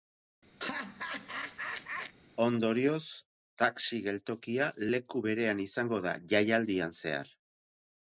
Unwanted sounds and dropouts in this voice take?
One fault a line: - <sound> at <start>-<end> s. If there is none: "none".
- laugh at 0.6-2.1 s